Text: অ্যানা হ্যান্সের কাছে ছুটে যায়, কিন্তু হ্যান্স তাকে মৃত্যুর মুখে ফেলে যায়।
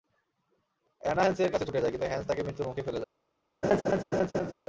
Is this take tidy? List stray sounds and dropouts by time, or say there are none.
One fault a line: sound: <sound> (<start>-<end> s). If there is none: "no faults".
sound: laugh (3.6-4.5 s)